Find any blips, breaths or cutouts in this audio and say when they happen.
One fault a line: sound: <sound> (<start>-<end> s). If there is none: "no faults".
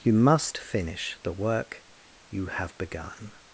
no faults